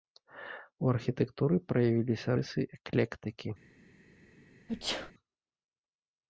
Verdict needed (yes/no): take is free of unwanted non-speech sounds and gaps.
no